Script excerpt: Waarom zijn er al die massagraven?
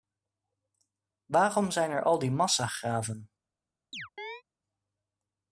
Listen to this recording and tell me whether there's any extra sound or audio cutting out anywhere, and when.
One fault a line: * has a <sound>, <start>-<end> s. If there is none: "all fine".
* has a chirp, 3.9-4.4 s